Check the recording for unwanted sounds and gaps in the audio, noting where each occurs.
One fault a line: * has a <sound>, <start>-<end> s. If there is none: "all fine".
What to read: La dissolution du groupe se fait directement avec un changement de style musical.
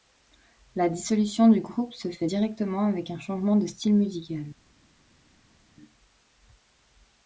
all fine